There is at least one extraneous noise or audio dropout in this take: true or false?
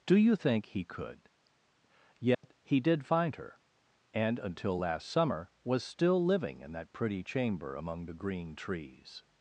true